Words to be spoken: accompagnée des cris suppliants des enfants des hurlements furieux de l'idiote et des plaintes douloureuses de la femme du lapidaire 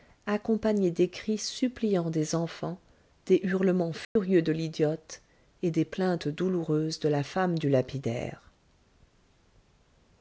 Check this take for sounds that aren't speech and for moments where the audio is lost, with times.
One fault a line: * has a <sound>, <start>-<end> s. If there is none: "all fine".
* has a dropout, 4.0-4.2 s